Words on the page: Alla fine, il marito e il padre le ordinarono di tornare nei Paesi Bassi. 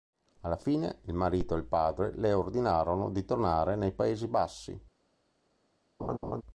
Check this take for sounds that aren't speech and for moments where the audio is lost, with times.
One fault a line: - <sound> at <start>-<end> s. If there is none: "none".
- laugh at 6.0-6.4 s